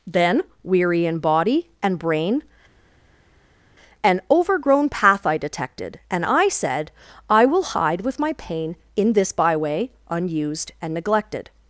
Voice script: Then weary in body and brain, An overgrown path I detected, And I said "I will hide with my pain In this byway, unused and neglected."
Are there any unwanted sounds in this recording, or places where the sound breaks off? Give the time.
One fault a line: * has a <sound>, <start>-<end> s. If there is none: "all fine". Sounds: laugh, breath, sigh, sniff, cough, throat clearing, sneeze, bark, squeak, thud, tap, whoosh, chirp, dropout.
all fine